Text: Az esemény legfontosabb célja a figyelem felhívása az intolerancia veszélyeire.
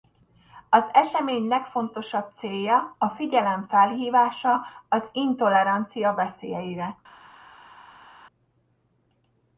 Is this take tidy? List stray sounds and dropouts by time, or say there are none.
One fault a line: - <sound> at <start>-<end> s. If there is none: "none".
none